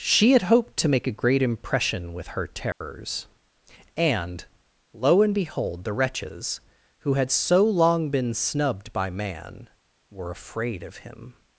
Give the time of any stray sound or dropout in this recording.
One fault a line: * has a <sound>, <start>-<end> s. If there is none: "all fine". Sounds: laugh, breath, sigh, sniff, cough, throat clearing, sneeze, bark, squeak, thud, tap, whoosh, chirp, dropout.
* has a dropout, 2.7-2.8 s